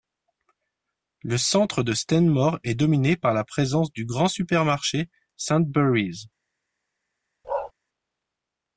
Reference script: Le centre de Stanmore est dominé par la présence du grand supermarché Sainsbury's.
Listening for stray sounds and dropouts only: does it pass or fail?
fail